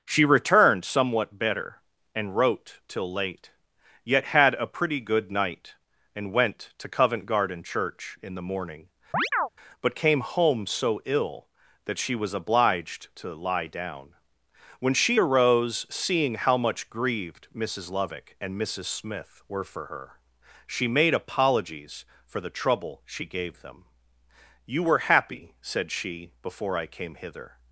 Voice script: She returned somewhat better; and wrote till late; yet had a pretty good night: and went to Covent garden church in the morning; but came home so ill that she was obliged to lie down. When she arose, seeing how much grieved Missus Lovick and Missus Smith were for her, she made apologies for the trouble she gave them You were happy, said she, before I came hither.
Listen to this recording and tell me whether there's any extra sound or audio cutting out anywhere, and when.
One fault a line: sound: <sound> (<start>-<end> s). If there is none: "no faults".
sound: chirp (9.1-9.5 s)